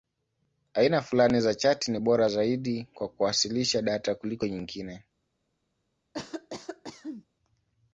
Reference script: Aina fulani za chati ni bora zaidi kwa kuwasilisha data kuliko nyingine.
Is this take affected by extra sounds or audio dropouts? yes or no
yes